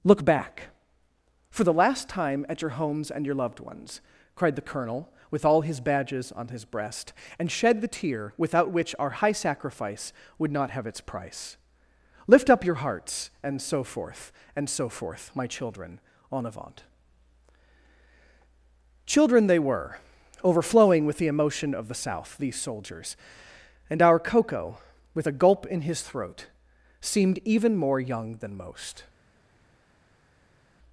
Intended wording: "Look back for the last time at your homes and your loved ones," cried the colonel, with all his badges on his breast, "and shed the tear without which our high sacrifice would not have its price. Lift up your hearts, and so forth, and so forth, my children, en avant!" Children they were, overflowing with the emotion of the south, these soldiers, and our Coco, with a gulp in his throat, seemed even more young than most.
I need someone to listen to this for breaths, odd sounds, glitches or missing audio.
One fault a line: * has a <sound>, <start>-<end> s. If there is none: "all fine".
all fine